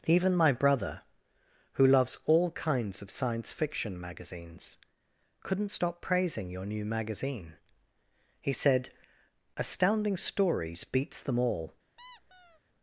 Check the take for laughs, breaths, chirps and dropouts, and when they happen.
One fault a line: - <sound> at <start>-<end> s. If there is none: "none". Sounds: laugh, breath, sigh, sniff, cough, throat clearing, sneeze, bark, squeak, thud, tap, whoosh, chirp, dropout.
- squeak at 12.0-12.6 s